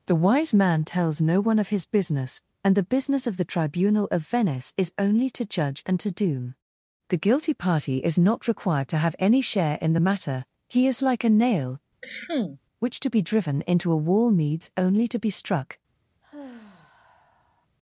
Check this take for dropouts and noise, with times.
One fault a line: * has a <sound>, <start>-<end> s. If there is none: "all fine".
* has a cough, 12.0-12.6 s
* has a sigh, 16.2-17.7 s